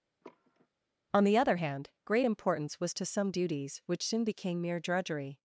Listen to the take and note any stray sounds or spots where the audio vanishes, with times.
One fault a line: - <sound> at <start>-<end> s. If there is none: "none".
- sigh at 0.2-0.7 s